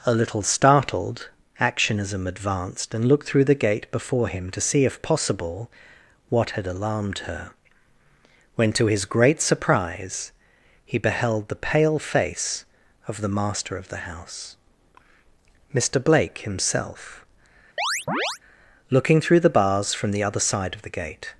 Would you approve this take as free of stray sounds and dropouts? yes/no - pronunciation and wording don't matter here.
no